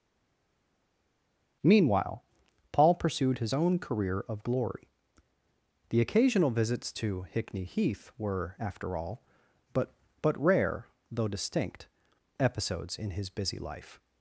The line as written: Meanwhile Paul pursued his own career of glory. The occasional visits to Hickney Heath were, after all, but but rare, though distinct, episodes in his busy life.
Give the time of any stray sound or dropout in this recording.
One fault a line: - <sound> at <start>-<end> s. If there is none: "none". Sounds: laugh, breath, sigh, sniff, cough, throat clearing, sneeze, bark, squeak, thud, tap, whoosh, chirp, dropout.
none